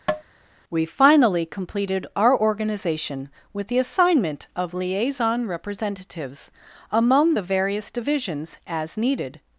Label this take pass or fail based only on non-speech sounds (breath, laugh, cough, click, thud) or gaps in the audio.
fail